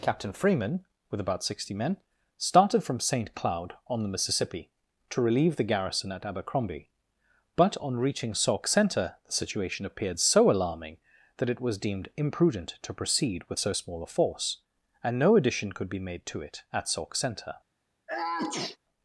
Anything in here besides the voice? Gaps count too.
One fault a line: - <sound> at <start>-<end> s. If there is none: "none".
- sneeze at 18.1-18.8 s